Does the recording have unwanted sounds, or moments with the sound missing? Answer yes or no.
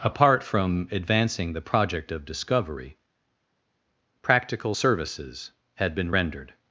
no